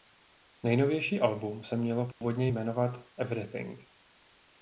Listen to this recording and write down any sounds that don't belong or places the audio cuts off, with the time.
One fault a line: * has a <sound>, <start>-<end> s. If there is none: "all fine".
* has a dropout, 2.1-2.2 s